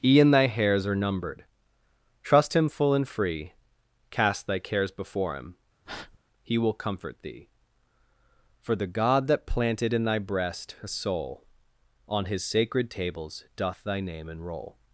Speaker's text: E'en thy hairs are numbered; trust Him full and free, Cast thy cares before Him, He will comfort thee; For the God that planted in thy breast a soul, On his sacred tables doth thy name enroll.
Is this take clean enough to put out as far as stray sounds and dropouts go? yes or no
no